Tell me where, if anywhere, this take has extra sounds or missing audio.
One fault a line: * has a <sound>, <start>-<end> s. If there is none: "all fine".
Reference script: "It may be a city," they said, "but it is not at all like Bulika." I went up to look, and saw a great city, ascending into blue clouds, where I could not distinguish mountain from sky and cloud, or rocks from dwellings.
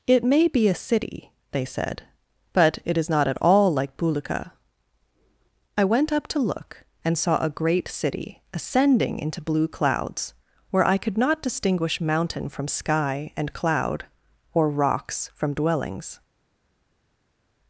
all fine